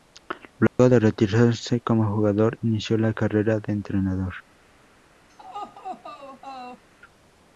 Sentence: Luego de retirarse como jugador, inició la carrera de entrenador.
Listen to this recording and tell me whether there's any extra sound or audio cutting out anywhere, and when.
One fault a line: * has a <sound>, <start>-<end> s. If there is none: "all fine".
* has a dropout, 0.7-0.8 s
* has a laugh, 5.3-6.8 s